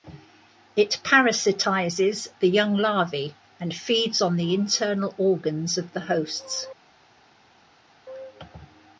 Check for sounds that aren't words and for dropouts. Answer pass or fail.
pass